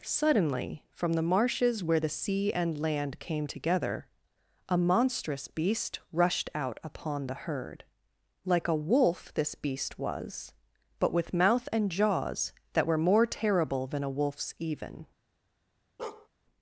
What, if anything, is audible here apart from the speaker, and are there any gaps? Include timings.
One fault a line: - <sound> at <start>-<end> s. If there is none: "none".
- bark at 16.0-16.3 s